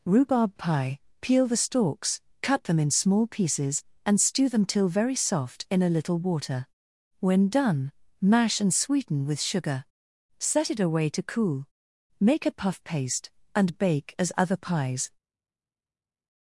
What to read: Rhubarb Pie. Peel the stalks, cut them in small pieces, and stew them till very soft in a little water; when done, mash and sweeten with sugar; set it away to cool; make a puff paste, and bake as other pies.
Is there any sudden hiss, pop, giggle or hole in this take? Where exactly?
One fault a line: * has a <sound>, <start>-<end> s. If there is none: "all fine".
all fine